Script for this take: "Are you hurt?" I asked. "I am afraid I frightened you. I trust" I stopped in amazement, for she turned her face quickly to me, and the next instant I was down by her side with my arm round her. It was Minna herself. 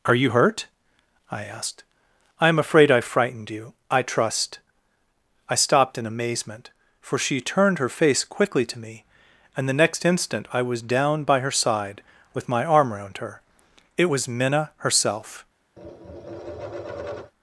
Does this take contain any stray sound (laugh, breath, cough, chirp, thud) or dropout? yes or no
yes